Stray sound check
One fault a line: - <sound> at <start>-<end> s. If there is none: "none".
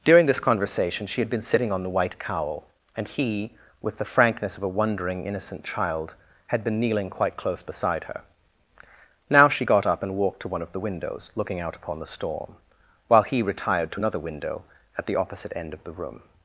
none